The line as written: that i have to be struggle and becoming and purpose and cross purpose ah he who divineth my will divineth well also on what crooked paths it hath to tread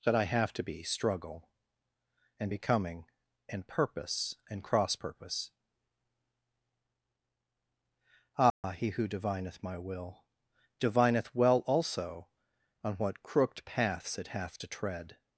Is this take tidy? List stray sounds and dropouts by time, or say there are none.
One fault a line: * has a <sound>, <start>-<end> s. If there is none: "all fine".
* has a dropout, 8.5-8.6 s